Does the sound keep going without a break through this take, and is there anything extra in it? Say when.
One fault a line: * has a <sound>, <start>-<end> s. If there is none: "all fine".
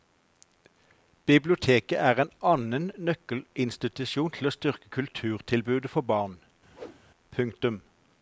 * has a whoosh, 6.7-7.0 s